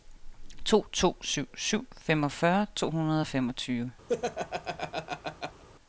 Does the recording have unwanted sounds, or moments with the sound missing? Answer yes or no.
yes